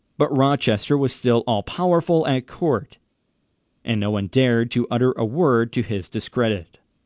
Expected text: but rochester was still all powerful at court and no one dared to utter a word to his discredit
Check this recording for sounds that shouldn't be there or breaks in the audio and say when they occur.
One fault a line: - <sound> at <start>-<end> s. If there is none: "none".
none